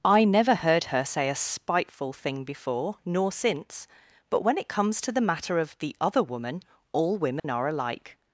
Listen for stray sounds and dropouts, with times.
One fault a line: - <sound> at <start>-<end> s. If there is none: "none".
- dropout at 7.4-7.4 s